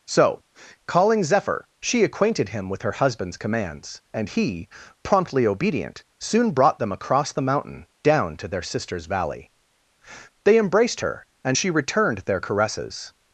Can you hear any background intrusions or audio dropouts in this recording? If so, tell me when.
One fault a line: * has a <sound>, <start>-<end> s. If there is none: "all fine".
all fine